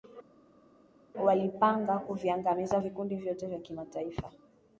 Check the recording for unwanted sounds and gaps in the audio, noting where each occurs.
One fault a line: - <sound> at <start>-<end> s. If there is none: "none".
none